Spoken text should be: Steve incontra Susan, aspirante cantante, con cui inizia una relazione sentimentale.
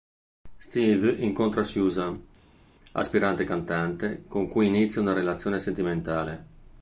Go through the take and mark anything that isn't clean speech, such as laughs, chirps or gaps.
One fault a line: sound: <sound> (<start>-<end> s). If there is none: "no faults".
no faults